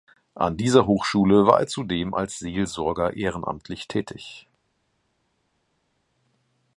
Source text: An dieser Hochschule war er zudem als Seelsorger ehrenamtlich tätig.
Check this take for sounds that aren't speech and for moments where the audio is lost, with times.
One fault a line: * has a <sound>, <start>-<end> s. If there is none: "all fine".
all fine